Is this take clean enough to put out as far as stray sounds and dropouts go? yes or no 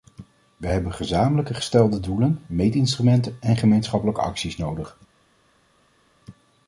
yes